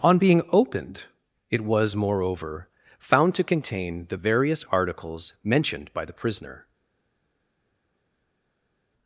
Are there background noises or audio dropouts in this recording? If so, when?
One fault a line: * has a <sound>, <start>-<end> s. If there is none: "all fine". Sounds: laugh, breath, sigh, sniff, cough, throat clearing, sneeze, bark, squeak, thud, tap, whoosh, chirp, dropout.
all fine